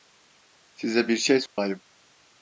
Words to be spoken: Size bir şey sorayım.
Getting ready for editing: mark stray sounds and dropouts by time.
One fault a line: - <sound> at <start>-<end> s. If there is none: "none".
- dropout at 1.5-1.6 s